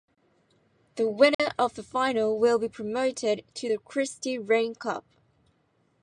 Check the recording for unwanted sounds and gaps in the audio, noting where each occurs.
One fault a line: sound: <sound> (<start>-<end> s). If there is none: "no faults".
sound: dropout (1.3-1.4 s)